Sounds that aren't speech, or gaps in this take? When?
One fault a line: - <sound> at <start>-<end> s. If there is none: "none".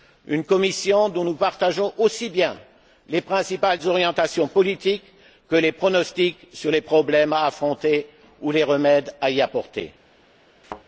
- thud at 10.6-10.8 s